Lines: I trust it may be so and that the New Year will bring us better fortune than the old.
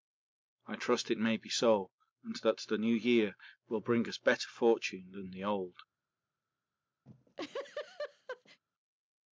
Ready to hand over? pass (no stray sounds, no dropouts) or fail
fail